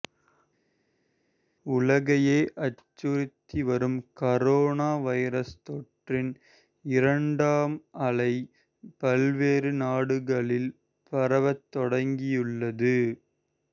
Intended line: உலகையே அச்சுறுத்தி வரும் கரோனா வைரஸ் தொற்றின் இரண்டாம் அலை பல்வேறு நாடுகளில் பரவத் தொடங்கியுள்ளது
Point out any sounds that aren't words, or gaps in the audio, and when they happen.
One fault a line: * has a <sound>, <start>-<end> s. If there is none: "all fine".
all fine